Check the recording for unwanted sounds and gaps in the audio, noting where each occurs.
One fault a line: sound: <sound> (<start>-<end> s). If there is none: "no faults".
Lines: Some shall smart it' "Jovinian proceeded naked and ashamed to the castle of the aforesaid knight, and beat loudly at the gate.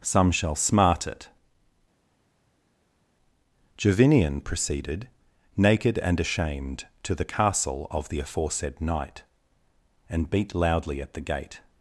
no faults